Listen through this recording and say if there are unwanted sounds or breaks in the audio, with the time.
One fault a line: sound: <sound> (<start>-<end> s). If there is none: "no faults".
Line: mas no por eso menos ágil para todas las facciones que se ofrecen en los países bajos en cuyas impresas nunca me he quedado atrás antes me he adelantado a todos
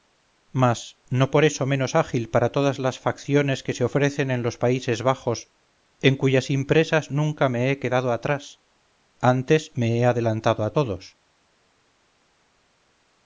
no faults